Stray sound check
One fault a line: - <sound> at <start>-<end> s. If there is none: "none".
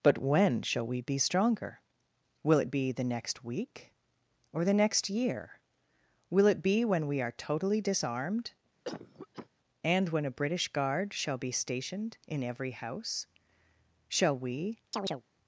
- cough at 8.9-9.5 s
- chirp at 14.9-15.2 s